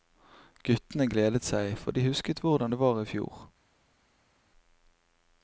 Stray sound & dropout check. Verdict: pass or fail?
pass